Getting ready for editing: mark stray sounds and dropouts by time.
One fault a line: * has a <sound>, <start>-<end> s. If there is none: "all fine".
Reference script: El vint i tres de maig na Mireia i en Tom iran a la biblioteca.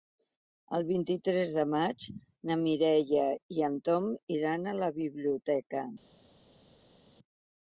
all fine